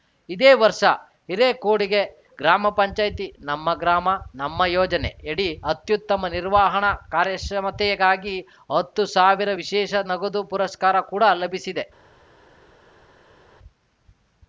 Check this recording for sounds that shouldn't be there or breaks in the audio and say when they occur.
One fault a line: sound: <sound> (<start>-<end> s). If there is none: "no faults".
no faults